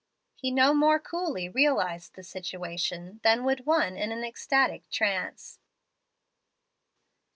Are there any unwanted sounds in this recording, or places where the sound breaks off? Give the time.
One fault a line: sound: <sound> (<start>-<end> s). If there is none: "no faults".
no faults